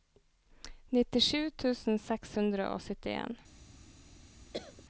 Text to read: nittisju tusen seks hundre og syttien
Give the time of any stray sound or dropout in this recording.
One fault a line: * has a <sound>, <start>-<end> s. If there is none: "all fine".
* has a cough, 4.5-4.8 s